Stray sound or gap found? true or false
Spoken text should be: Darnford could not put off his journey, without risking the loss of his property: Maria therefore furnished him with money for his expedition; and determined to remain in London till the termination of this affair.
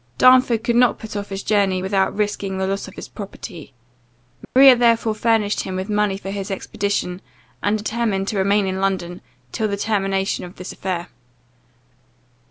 true